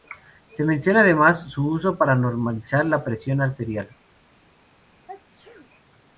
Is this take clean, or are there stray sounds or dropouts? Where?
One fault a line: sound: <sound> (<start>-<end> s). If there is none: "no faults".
sound: sneeze (5.1-5.7 s)